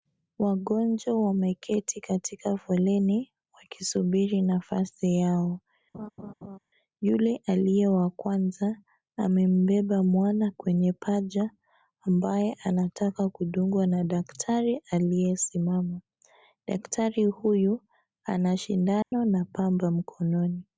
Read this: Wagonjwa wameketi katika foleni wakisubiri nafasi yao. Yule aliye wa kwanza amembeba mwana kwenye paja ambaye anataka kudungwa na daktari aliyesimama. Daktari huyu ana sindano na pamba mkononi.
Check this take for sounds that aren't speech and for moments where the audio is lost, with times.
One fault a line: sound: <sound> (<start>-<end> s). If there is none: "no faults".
sound: laugh (5.9-6.6 s)
sound: dropout (19.0-19.1 s)